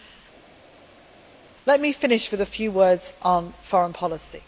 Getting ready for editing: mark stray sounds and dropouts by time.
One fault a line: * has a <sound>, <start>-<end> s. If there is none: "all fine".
all fine